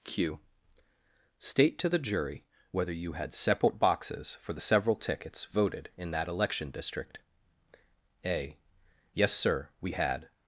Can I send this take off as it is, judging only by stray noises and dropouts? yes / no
yes